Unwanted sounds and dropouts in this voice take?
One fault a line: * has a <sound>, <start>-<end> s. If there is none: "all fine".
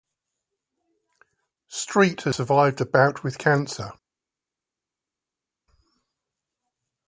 all fine